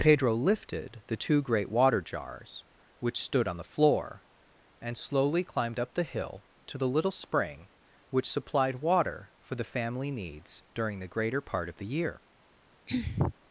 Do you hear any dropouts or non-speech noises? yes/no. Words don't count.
yes